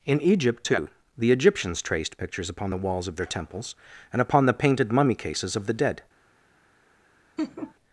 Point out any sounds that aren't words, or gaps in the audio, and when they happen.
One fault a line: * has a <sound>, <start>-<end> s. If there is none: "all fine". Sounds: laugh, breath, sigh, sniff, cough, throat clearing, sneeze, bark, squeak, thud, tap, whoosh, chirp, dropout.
* has a laugh, 7.4-7.8 s